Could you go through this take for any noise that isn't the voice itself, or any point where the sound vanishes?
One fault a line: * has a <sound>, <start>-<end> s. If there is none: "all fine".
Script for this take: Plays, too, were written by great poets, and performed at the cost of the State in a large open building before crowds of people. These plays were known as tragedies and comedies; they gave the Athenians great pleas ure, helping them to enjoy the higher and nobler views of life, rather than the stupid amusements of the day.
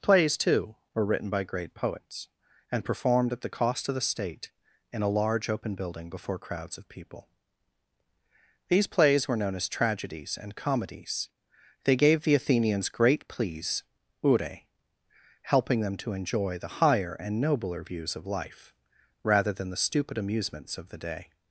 all fine